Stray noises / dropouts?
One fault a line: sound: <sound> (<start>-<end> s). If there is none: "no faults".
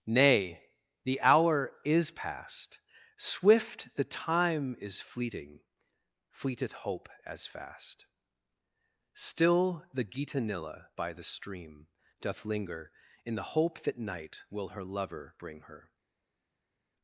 no faults